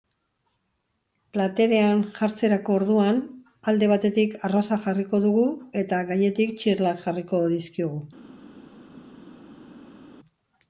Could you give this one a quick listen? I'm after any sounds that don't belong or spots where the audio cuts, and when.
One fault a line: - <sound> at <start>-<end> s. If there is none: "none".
none